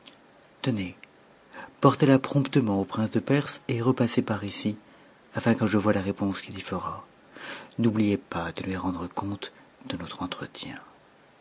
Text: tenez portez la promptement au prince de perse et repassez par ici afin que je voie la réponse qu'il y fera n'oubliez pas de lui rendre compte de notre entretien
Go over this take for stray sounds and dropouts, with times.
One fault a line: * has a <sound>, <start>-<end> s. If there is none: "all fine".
all fine